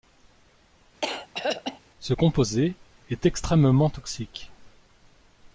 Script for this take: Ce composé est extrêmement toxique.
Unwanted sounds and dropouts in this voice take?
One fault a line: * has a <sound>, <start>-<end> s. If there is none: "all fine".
* has a throat clearing, 1.0-1.8 s